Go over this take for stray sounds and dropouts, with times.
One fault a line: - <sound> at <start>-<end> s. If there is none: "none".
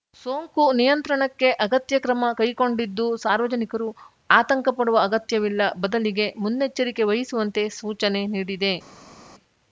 none